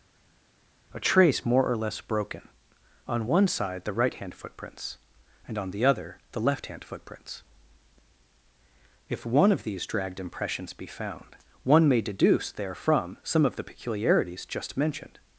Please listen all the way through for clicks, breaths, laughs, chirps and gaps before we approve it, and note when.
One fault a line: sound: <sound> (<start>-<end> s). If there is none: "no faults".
no faults